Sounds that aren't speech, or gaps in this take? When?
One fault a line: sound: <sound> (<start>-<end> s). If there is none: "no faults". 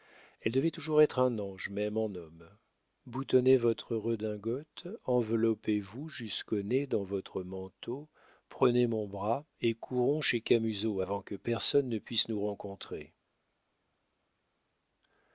no faults